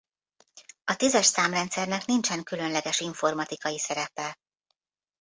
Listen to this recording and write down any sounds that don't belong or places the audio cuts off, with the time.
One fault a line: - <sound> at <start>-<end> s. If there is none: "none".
none